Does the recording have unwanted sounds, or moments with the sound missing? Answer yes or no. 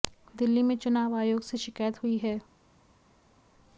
no